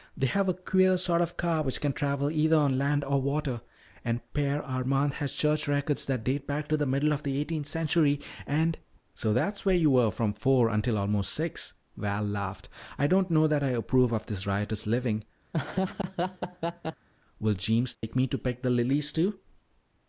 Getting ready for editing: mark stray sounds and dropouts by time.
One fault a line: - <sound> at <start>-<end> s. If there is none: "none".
- laugh at 15.5-17.1 s
- dropout at 17.9-18.0 s